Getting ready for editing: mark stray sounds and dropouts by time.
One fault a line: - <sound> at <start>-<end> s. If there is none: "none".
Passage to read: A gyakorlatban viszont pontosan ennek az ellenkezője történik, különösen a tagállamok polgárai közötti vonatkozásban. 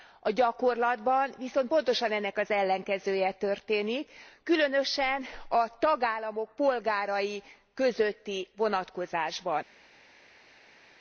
none